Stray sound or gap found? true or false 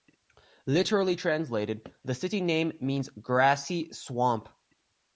false